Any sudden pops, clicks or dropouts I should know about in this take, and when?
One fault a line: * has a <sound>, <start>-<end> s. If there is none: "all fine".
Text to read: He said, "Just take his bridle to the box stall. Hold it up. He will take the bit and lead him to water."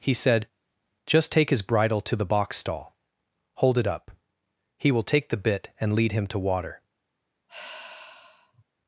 * has a sigh, 7.5-8.6 s